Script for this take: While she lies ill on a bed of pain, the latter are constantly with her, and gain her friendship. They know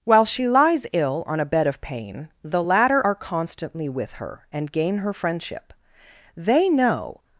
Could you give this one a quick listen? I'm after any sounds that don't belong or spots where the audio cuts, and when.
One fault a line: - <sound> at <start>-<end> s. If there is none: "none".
none